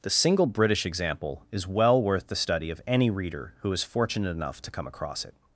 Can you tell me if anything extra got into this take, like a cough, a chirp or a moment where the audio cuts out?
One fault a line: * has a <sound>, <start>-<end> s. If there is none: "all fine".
all fine